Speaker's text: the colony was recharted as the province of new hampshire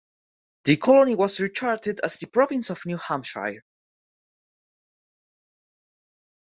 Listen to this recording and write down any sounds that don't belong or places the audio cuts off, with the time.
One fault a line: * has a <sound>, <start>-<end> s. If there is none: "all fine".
all fine